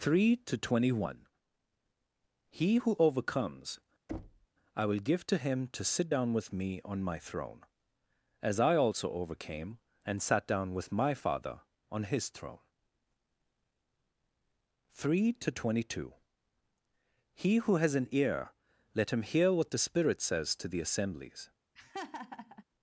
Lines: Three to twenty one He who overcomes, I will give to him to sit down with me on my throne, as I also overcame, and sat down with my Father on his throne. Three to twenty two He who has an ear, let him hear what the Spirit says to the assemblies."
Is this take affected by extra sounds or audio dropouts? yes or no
yes